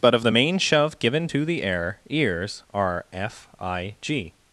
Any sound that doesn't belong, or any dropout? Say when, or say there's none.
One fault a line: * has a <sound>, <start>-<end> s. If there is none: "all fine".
all fine